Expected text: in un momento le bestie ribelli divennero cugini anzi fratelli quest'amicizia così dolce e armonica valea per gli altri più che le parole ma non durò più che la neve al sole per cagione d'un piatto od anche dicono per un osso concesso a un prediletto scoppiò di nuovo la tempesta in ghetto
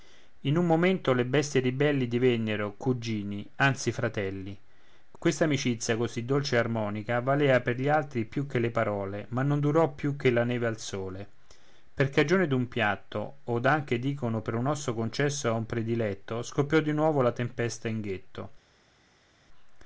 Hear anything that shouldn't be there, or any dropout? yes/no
no